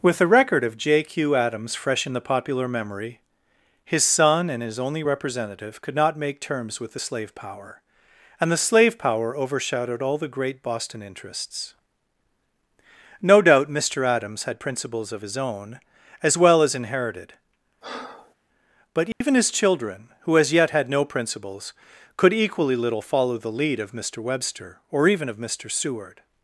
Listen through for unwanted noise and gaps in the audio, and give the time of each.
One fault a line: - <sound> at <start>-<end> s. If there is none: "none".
- breath at 17.8-18.3 s
- dropout at 19.1-19.2 s